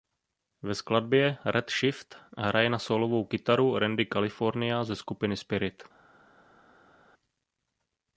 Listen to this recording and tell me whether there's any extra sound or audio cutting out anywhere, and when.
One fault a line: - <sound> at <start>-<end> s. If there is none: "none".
none